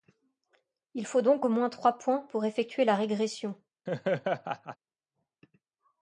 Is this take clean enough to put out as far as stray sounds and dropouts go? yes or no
no